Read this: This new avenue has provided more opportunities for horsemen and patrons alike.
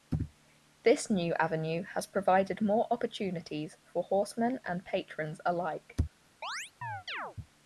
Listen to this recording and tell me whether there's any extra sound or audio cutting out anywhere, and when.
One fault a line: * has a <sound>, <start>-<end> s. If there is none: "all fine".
* has a chirp, 6.4-7.4 s